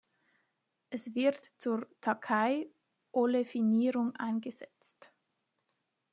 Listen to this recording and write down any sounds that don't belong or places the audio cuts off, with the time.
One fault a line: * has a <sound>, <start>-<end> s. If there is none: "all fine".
all fine